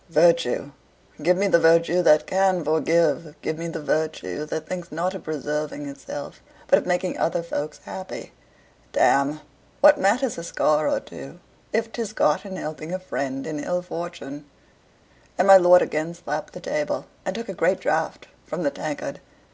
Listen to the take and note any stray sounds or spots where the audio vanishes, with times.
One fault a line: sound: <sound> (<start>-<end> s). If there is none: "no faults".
no faults